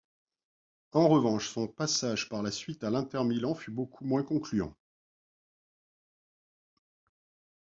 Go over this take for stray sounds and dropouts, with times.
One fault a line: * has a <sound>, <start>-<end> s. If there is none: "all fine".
all fine